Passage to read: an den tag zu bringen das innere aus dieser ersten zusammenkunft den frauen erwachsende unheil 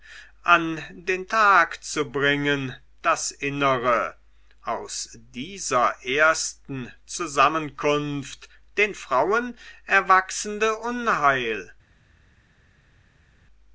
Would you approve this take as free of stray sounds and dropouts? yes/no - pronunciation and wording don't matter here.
yes